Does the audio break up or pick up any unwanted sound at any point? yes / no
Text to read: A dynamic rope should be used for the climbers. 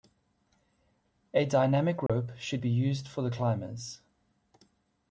yes